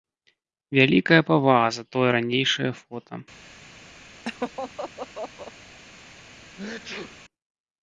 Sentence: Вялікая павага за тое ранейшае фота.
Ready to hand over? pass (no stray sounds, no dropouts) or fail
fail